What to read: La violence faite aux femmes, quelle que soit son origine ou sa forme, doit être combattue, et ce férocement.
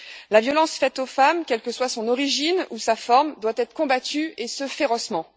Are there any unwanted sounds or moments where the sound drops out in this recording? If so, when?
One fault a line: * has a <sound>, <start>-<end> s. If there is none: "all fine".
all fine